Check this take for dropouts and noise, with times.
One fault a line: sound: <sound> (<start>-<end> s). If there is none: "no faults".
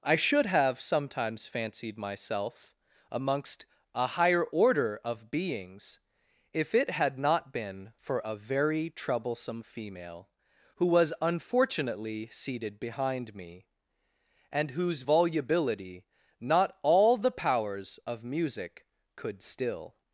no faults